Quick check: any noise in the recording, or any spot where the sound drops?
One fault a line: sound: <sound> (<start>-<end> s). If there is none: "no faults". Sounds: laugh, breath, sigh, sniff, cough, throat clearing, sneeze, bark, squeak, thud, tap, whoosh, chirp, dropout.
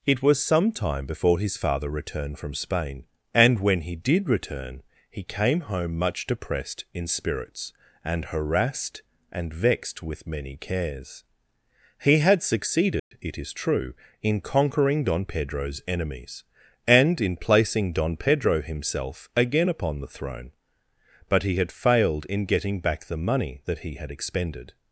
sound: dropout (13.0-13.1 s)